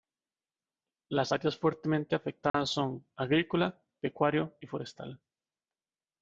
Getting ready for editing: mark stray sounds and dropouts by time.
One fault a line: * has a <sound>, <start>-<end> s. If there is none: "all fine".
* has a dropout, 2.5-2.5 s